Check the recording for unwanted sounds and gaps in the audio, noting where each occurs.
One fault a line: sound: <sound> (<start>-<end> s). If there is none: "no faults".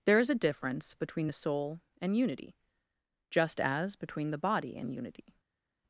no faults